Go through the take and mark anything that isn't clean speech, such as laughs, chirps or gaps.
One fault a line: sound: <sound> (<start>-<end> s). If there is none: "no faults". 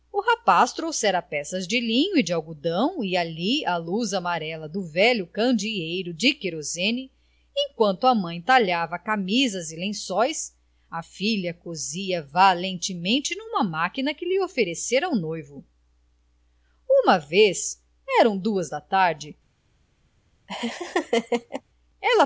sound: laugh (20.5-21.6 s)